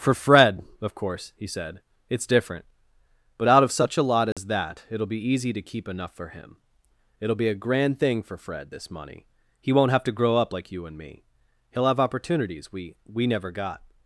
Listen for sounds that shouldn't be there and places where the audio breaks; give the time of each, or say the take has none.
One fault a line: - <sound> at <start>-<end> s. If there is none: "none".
- dropout at 4.3-4.4 s